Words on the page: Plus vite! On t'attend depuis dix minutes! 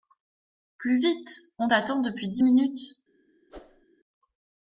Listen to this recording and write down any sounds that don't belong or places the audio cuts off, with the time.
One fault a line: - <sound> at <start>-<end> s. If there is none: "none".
- whoosh at 3.5-3.8 s